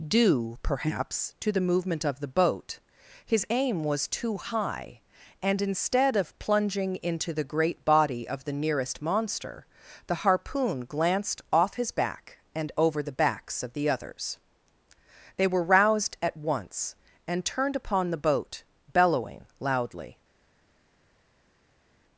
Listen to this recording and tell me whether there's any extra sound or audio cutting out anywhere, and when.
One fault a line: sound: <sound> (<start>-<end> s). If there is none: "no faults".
no faults